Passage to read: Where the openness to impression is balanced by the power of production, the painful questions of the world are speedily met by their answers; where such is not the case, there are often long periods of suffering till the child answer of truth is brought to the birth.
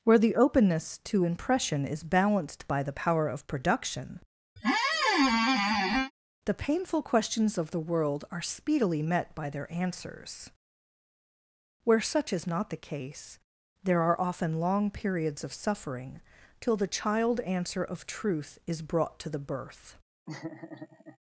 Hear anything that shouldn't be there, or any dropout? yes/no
yes